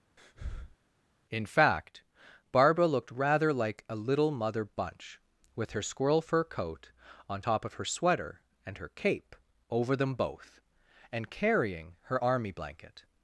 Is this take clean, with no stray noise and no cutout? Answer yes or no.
no